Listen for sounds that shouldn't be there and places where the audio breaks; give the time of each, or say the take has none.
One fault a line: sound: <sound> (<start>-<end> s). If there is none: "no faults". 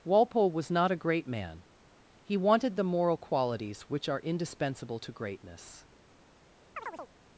sound: chirp (6.8-7.1 s)